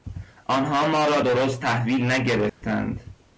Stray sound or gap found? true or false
true